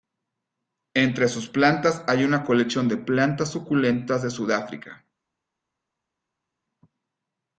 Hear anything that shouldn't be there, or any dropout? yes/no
no